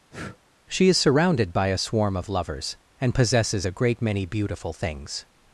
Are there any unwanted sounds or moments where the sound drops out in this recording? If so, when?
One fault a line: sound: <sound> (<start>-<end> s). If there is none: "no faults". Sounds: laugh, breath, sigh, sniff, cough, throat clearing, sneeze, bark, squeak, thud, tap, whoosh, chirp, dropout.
sound: breath (0.1-0.4 s)